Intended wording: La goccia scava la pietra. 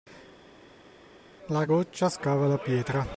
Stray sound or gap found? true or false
false